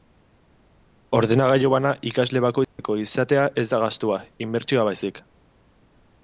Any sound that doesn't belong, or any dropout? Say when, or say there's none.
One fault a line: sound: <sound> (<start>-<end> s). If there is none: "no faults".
sound: dropout (2.6-2.8 s)